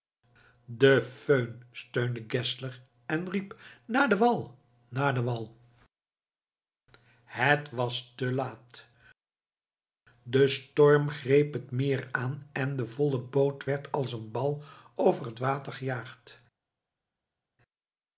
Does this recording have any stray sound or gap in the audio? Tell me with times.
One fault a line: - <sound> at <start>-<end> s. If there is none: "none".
none